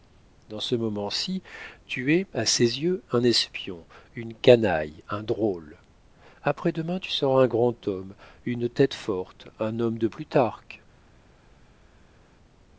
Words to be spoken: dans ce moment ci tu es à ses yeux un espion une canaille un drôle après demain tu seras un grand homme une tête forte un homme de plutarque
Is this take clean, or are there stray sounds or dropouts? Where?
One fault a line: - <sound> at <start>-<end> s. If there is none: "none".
none